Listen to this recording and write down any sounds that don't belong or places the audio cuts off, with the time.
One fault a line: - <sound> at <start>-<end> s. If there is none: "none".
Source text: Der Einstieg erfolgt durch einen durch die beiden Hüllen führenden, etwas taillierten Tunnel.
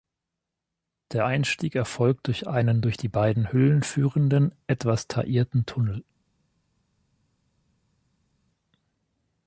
none